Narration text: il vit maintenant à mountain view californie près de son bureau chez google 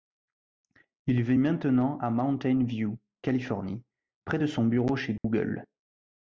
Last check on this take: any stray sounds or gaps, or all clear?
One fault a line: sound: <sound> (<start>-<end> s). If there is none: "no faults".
sound: dropout (5.2-5.2 s)